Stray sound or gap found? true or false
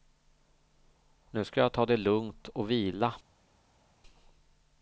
false